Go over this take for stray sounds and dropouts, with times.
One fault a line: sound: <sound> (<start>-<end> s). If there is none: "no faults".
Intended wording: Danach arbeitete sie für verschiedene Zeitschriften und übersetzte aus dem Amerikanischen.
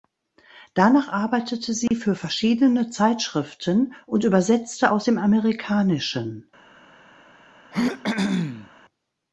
sound: dropout (1.9-1.9 s)
sound: throat clearing (7.7-8.7 s)